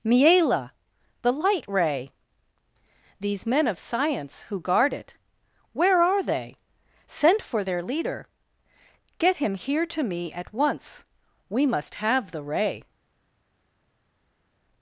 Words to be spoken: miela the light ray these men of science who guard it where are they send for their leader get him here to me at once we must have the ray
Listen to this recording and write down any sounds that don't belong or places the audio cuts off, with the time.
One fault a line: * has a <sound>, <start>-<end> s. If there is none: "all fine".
all fine